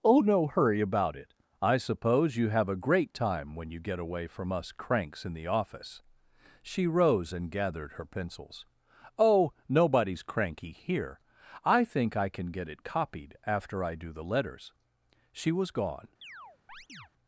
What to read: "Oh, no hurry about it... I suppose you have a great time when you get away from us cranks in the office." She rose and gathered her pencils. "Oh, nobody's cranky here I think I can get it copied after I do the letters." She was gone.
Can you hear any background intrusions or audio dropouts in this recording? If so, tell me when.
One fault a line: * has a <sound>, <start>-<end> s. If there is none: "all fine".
* has a chirp, 16.2-17.1 s